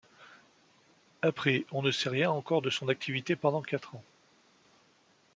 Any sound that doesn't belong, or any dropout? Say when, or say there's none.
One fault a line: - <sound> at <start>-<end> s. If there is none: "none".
none